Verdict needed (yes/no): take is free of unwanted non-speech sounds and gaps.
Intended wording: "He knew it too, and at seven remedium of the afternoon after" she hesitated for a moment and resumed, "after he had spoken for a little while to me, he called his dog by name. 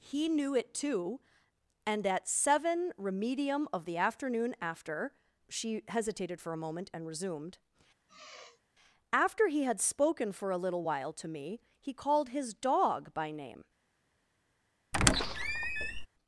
no